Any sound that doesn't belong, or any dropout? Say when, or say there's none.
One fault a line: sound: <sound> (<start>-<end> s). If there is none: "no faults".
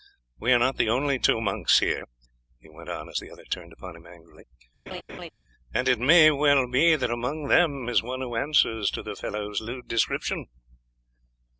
sound: laugh (4.9-5.3 s)